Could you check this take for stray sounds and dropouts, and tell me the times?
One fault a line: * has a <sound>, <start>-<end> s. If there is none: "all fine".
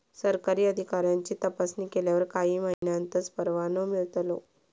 * has a dropout, 2.7-2.8 s